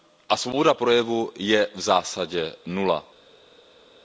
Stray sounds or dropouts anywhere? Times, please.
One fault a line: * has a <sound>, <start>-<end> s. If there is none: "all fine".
all fine